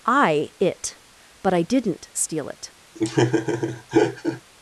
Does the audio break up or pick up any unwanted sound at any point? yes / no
yes